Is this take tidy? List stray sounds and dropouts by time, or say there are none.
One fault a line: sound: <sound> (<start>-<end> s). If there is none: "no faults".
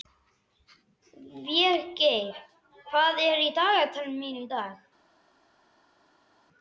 no faults